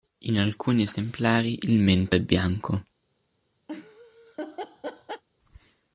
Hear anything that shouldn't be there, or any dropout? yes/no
yes